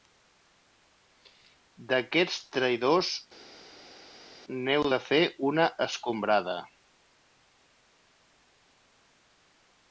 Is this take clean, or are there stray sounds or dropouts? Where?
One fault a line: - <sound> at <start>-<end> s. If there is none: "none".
none